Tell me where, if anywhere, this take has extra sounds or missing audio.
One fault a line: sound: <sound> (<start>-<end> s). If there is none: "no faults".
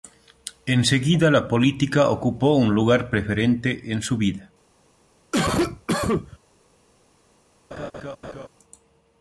sound: cough (5.3-6.4 s)
sound: laugh (7.7-8.5 s)